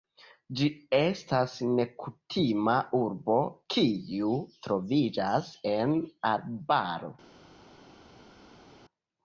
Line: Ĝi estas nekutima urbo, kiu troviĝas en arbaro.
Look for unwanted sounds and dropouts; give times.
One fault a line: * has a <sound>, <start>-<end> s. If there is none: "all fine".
all fine